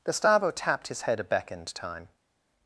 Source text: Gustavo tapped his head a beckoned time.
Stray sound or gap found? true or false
false